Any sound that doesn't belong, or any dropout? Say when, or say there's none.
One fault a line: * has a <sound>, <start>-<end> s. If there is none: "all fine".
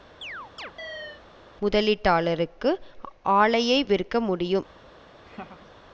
* has a chirp, 0.2-1.2 s
* has a laugh, 5.2-5.7 s